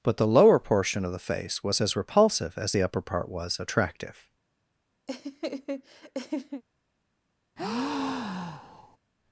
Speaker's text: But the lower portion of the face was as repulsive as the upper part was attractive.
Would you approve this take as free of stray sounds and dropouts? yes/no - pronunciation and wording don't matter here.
no